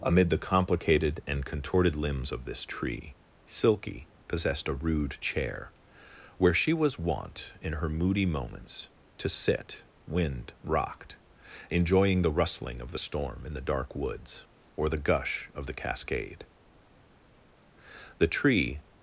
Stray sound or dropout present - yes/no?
no